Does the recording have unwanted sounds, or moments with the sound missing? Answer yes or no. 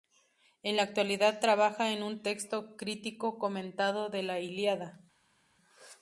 no